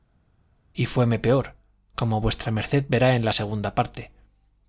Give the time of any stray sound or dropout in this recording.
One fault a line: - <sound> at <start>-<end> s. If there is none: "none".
none